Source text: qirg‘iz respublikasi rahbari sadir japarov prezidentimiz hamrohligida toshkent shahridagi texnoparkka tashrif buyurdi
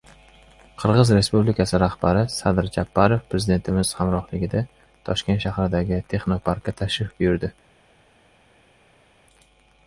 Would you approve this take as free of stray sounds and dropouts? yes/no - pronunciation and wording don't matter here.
yes